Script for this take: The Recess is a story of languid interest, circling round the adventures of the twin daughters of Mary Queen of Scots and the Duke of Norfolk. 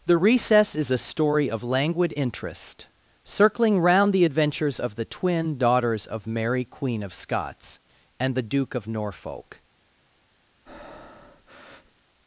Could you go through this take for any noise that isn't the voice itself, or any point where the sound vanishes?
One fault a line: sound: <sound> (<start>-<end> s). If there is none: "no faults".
sound: breath (10.7-12.0 s)